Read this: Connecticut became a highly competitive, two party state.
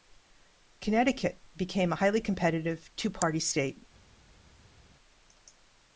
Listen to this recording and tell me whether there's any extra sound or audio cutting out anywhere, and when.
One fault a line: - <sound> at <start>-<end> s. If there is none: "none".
none